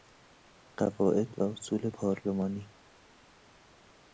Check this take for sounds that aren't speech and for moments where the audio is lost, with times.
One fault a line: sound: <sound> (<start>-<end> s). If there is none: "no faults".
no faults